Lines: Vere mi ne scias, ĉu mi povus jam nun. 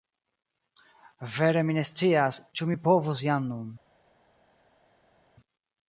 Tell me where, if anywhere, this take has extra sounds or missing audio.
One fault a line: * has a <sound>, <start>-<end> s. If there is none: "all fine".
all fine